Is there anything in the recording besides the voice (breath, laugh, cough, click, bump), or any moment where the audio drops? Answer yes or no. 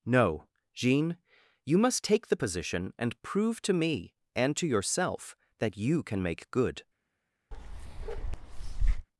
yes